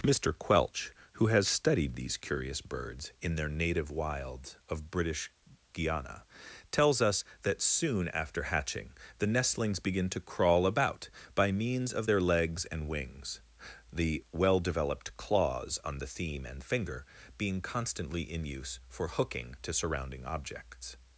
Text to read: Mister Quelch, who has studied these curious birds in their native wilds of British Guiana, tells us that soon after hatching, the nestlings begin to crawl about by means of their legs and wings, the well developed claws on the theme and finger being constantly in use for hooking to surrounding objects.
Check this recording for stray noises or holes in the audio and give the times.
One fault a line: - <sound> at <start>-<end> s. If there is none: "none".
none